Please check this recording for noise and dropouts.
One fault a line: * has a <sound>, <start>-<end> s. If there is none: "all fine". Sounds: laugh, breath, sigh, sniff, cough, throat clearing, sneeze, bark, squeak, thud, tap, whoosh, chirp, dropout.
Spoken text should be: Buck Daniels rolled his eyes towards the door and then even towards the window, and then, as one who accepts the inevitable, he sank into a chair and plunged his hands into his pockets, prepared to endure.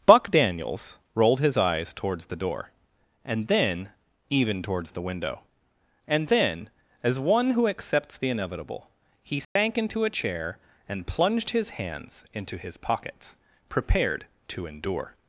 * has a dropout, 9.4-9.6 s